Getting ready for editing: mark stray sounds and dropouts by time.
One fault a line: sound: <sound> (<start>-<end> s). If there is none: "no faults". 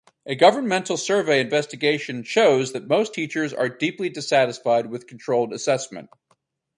no faults